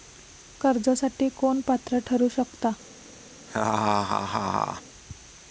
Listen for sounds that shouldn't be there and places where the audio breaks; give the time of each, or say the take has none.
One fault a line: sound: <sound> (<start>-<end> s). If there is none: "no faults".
sound: laugh (3.5-4.8 s)